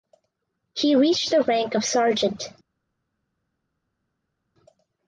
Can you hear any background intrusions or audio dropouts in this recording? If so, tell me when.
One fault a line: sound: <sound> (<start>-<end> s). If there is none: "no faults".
no faults